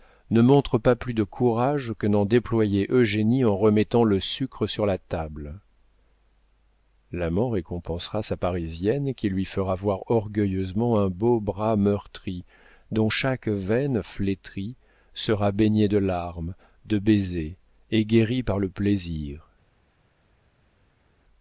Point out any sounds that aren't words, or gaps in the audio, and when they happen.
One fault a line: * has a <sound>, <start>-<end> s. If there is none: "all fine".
all fine